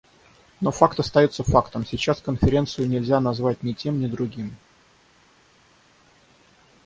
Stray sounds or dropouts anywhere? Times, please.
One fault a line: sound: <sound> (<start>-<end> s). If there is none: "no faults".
no faults